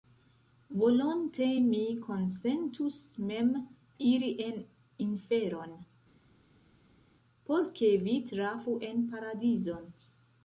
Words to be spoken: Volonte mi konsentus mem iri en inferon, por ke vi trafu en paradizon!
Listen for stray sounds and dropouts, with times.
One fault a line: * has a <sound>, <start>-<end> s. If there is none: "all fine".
all fine